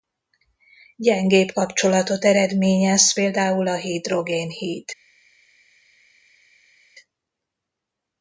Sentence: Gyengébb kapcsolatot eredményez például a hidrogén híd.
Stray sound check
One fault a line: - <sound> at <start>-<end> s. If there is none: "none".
none